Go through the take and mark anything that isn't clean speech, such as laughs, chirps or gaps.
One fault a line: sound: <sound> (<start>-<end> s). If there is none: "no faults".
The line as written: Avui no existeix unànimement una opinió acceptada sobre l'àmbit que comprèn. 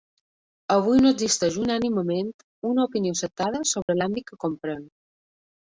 sound: dropout (3.8-3.9 s)